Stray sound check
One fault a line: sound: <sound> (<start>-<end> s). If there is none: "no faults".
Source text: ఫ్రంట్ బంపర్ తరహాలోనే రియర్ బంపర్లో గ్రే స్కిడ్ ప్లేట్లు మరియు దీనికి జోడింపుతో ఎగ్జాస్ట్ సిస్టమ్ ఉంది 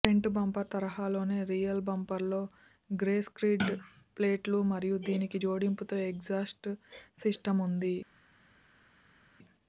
no faults